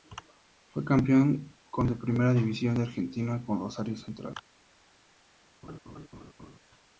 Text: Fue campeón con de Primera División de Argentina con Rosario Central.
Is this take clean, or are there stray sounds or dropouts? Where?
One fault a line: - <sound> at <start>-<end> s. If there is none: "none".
- laugh at 5.6-6.6 s